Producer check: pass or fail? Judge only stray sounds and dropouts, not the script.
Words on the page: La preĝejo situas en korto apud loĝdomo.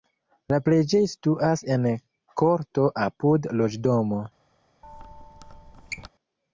fail